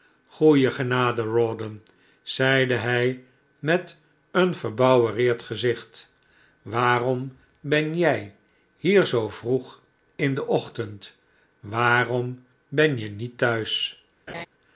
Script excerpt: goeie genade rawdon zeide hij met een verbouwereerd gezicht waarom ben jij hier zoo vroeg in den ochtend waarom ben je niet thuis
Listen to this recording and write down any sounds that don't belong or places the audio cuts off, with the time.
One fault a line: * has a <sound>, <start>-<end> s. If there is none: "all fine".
* has a laugh, 14.3-14.5 s